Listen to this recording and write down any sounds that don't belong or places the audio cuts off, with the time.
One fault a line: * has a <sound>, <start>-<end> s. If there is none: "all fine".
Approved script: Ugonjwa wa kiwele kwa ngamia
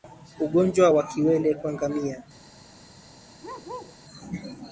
* has a bark, 3.4-4.0 s